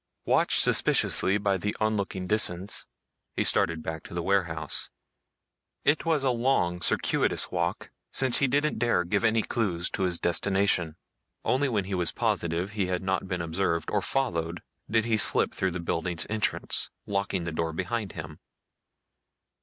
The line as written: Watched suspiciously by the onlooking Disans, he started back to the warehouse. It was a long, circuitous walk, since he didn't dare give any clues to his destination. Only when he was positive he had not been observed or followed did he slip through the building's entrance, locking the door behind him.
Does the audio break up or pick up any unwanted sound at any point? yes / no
no